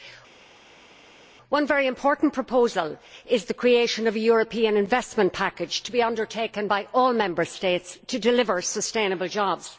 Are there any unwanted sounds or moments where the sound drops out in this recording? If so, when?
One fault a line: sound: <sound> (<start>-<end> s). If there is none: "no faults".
no faults